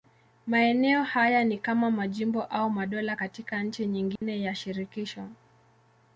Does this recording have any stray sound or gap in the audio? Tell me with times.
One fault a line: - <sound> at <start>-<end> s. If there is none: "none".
- dropout at 4.2-4.2 s